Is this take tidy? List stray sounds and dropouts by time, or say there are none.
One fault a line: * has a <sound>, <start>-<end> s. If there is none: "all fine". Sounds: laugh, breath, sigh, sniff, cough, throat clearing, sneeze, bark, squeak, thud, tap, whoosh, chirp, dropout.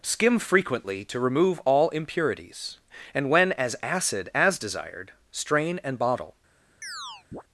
* has a chirp, 6.8-7.4 s